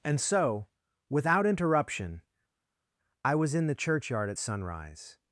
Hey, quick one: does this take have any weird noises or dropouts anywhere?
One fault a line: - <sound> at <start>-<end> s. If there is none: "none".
none